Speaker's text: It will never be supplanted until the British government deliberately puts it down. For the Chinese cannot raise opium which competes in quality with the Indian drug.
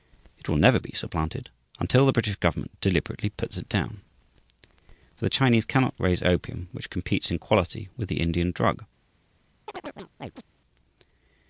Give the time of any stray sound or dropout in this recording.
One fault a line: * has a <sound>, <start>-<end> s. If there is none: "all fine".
* has a chirp, 9.7-10.5 s